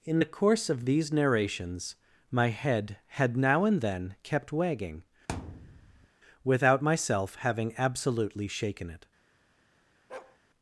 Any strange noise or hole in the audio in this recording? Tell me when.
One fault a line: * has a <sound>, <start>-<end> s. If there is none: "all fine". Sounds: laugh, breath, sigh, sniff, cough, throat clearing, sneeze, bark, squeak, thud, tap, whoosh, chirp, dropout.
* has a thud, 5.3-6.1 s
* has a bark, 10.1-10.4 s